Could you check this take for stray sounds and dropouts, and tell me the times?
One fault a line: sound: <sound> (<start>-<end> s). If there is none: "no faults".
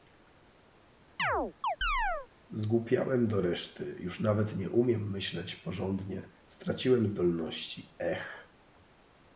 sound: chirp (1.2-2.3 s)